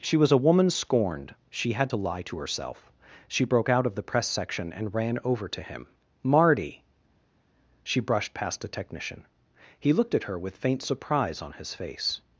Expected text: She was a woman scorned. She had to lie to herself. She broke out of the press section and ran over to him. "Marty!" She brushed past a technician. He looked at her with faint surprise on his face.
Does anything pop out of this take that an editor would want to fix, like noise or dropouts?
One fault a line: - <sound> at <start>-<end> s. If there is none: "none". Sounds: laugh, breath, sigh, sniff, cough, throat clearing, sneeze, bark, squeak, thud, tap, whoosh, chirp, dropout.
none